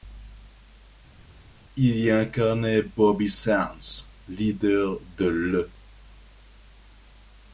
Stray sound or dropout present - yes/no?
no